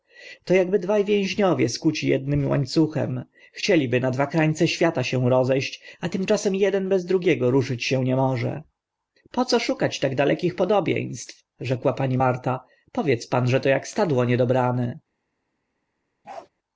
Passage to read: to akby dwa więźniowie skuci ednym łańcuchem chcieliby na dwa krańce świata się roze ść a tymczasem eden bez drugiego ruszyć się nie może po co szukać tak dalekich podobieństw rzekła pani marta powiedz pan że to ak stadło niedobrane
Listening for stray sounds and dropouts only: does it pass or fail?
fail